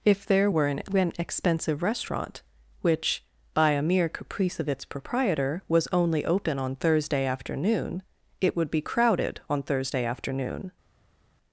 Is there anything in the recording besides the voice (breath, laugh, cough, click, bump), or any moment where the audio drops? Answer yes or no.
no